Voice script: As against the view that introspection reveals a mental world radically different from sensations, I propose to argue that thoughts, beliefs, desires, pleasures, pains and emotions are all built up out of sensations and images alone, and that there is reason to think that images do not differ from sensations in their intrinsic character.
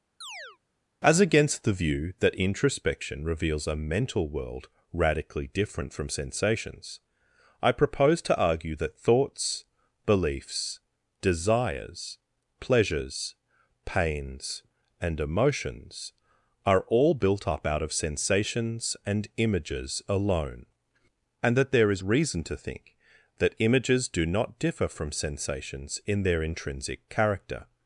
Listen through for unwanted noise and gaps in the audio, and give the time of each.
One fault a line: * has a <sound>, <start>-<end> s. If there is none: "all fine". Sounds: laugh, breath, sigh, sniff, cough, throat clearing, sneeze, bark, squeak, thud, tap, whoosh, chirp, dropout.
* has a chirp, 0.2-0.6 s